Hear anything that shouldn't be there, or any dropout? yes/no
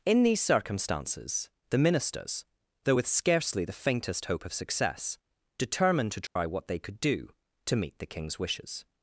yes